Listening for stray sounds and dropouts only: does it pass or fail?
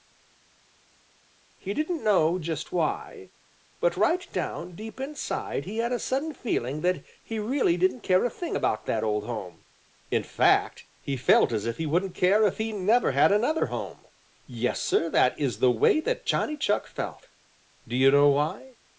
pass